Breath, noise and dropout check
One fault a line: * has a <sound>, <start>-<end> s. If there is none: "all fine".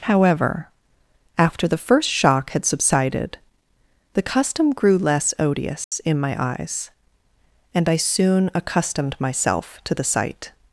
* has a dropout, 5.8-5.9 s